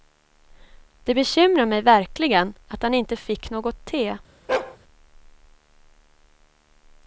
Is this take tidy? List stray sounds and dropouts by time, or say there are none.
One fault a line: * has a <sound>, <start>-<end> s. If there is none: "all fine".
* has a bark, 4.5-4.8 s